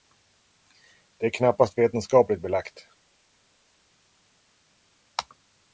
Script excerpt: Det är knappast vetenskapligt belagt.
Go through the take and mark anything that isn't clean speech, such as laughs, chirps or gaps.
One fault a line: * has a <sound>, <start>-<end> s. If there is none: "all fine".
all fine